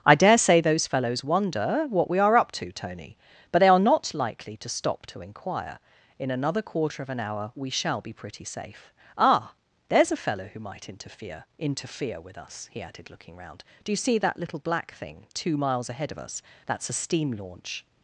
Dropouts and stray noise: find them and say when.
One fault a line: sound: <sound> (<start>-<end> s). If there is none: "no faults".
no faults